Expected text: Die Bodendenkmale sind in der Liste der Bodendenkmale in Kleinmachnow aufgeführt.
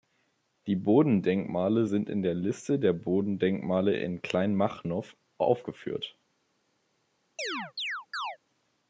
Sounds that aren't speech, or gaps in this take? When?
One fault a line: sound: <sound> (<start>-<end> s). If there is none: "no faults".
sound: chirp (7.4-8.4 s)